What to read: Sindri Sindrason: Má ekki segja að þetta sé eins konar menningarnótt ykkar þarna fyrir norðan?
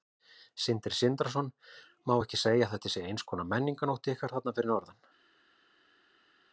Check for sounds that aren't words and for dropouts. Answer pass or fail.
pass